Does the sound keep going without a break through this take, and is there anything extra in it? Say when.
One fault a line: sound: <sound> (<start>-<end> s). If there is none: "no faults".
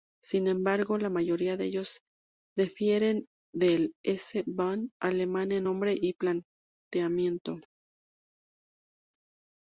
no faults